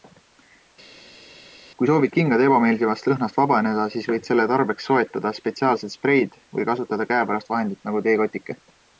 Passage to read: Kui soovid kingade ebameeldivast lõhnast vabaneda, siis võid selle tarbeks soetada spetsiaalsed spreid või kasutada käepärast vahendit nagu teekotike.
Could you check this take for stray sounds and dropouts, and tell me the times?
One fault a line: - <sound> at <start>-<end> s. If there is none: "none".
none